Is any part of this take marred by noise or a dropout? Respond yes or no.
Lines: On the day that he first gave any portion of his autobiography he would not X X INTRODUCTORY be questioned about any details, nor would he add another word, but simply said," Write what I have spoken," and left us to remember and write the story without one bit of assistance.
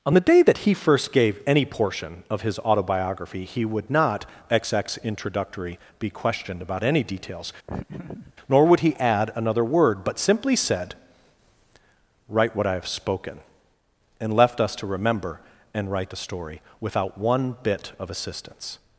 yes